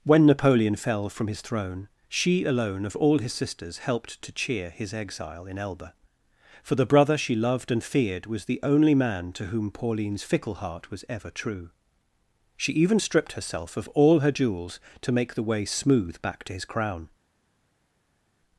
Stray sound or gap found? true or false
false